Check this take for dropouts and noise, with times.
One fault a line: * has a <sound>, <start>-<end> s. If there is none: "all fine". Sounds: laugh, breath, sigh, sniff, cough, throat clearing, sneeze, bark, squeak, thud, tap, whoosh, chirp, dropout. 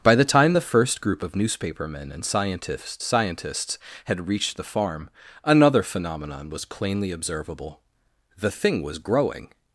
all fine